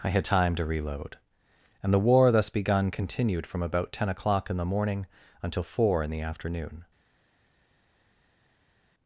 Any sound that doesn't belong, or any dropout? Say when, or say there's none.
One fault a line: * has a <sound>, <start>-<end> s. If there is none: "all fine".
all fine